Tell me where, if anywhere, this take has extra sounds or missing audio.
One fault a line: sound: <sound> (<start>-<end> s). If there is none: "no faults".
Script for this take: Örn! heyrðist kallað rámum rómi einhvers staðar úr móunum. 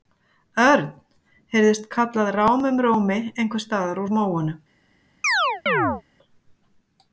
sound: chirp (5.2-6.0 s)